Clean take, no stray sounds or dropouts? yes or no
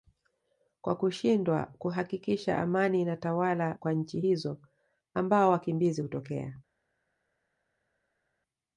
yes